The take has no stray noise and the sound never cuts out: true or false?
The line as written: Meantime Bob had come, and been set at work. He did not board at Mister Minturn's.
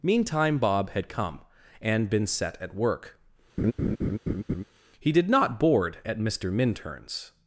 false